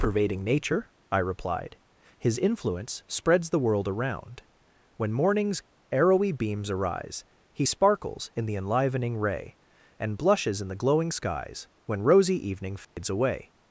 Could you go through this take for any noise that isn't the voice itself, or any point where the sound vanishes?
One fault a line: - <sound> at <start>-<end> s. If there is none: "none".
- dropout at 12.8-13.0 s